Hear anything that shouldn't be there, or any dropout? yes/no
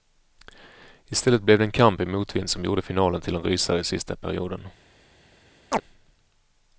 yes